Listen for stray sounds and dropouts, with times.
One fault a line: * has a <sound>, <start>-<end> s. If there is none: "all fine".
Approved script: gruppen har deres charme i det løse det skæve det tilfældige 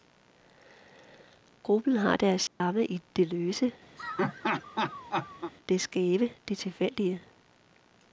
* has a dropout, 2.5-2.6 s
* has a laugh, 4.0-5.5 s